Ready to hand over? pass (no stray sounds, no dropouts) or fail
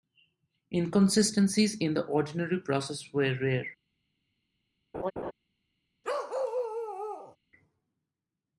fail